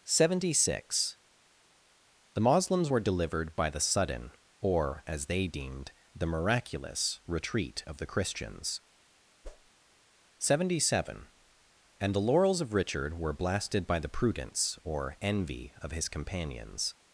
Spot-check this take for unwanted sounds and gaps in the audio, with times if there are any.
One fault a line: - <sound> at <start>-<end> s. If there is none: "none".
- whoosh at 9.4-9.7 s